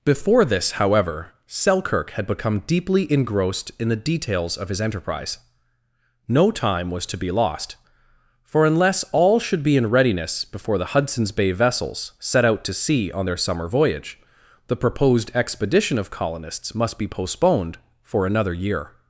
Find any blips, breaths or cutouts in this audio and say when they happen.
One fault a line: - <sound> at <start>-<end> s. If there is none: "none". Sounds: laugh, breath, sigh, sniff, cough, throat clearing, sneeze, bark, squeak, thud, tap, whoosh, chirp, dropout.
none